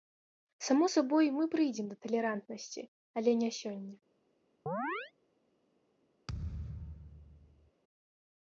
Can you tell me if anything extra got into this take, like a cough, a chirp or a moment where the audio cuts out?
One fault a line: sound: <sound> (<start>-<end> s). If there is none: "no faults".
sound: chirp (4.7-5.1 s)
sound: thud (6.3-7.7 s)